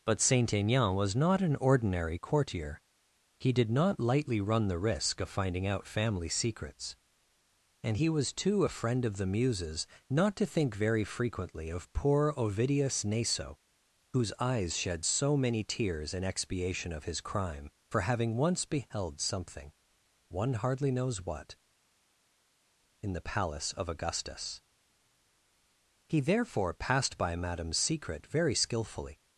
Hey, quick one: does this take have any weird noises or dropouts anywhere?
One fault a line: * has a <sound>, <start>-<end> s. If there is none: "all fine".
all fine